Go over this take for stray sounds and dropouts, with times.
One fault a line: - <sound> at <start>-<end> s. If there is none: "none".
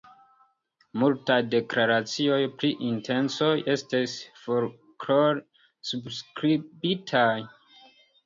none